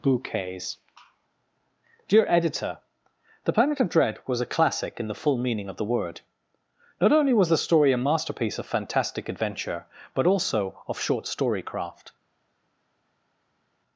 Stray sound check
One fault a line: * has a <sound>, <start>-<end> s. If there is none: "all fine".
all fine